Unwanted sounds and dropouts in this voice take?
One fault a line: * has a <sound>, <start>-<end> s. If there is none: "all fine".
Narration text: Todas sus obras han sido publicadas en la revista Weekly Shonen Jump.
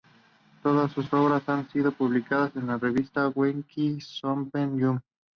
all fine